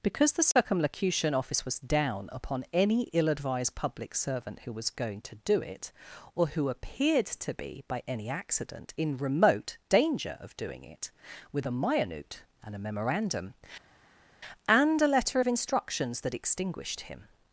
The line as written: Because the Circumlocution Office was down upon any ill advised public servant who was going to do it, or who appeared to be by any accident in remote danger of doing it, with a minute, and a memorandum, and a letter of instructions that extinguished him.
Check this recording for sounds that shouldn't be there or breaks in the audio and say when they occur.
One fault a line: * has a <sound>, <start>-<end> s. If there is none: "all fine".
all fine